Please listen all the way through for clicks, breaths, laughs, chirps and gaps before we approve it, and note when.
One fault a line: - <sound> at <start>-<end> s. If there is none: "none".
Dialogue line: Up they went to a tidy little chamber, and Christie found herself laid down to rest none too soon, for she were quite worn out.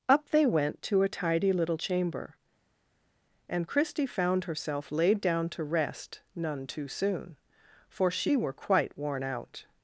none